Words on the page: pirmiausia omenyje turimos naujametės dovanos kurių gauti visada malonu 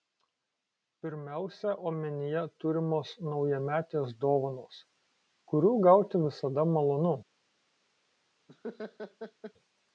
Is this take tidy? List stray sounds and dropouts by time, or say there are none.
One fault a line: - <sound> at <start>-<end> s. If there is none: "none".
- laugh at 8.5-9.5 s